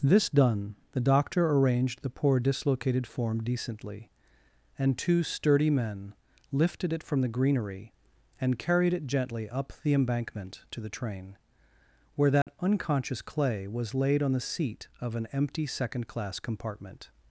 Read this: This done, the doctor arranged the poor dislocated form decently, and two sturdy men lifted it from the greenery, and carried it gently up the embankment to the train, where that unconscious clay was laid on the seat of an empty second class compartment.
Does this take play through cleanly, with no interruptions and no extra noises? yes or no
no